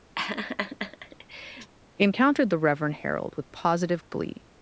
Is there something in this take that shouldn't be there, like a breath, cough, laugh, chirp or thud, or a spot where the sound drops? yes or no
yes